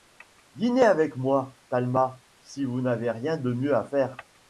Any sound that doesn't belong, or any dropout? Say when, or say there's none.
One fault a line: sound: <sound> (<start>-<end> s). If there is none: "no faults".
no faults